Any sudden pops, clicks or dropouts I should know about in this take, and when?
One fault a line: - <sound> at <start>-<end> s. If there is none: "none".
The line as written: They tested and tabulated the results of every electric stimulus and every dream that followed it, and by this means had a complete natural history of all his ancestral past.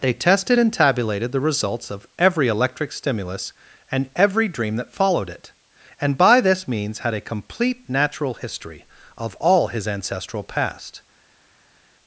none